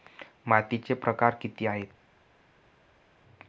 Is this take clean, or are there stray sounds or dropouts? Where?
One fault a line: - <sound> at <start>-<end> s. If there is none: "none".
none